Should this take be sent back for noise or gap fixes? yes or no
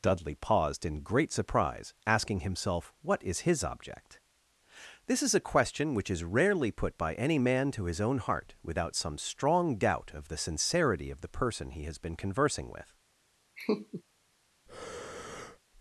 yes